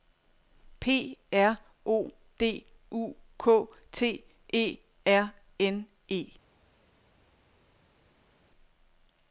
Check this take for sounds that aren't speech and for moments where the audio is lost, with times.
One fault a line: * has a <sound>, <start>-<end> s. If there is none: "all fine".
all fine